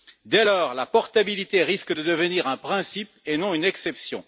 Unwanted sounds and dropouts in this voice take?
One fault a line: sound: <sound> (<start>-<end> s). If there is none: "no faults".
no faults